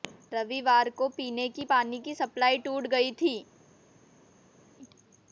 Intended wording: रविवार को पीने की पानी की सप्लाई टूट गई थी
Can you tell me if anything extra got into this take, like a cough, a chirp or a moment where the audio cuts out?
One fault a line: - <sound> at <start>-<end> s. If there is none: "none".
none